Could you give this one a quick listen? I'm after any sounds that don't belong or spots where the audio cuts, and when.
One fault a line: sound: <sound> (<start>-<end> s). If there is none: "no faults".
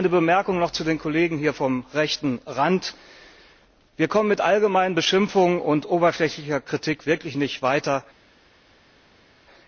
no faults